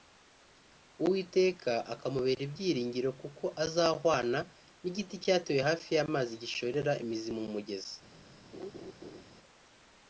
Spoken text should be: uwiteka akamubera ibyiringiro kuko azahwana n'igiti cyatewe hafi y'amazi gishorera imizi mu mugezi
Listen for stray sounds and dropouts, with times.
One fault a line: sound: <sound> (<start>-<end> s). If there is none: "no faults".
sound: laugh (8.5-9.2 s)